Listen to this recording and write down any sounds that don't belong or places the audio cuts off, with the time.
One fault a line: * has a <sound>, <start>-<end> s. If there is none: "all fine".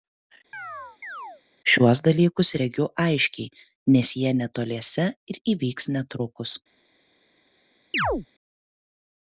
* has a chirp, 0.5-1.4 s
* has a chirp, 7.9-8.3 s